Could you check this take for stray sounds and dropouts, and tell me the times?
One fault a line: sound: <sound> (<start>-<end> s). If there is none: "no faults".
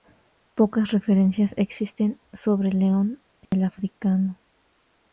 sound: dropout (3.5-3.5 s)